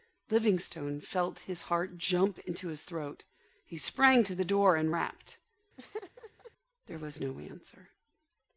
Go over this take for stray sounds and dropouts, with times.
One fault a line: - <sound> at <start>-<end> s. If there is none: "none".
- laugh at 5.8-6.5 s